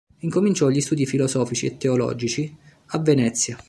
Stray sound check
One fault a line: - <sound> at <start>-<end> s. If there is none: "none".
none